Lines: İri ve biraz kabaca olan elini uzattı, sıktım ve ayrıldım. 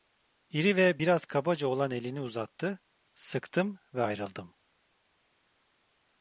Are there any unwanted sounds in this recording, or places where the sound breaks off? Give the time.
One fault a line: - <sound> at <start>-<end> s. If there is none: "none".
none